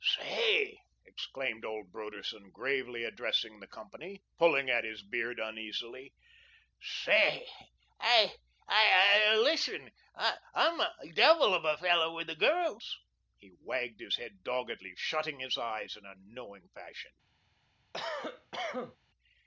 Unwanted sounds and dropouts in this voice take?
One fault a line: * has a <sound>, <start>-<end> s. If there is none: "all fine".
* has a cough, 17.9-19.0 s